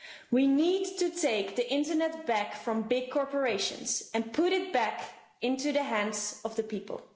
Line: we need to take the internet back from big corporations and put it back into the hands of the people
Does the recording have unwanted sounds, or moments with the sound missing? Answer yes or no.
no